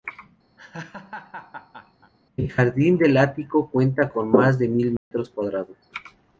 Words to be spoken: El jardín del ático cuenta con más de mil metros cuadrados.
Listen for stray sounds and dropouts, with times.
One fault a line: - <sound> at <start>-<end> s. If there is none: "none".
- laugh at 0.6-2.1 s
- dropout at 5.0-5.1 s